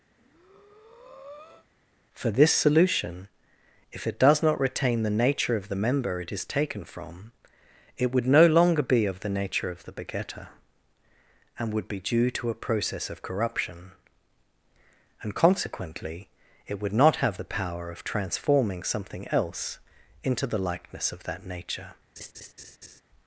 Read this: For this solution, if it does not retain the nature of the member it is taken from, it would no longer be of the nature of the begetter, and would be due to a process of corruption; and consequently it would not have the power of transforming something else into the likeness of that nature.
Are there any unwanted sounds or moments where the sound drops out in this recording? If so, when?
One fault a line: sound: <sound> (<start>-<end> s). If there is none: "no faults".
sound: breath (0.1-1.7 s)
sound: laugh (22.2-23.0 s)